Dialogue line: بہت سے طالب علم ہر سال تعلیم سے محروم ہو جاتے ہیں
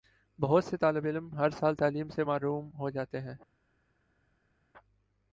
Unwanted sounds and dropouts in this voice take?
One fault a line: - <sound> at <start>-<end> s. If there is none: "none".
none